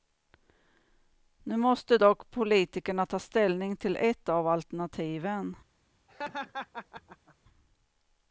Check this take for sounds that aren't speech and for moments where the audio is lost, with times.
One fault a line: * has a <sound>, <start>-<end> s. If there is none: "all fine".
* has a laugh, 6.1-7.4 s